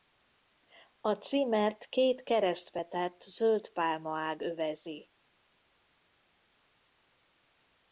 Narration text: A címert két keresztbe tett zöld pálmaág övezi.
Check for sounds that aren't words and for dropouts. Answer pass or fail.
pass